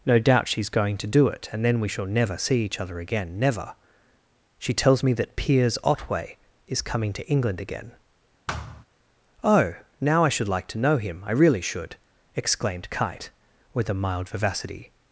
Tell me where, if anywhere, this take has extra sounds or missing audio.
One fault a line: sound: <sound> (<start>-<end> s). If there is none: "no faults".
sound: thud (8.5-8.8 s)